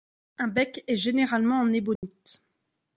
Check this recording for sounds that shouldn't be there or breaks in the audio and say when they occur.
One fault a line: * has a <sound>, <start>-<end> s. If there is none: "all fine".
* has a dropout, 2.0-2.0 s